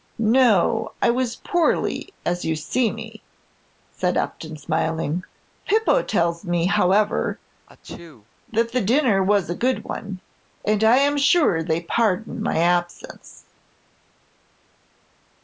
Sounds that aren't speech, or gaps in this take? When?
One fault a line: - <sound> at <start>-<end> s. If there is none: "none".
- sneeze at 7.7-8.3 s